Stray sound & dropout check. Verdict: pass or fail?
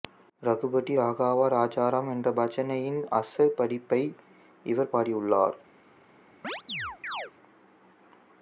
fail